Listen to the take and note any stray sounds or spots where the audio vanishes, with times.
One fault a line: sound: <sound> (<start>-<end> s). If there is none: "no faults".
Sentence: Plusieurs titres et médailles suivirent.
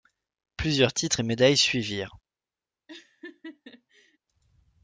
sound: laugh (2.9-4.2 s)